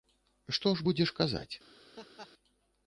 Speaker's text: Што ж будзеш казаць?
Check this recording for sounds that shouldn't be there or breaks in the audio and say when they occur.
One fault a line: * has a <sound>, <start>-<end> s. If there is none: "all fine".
* has a laugh, 2.0-2.3 s